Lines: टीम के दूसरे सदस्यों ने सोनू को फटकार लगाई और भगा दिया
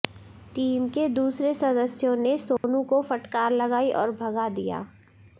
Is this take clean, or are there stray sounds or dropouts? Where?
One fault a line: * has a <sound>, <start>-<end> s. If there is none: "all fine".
* has a dropout, 2.6-2.6 s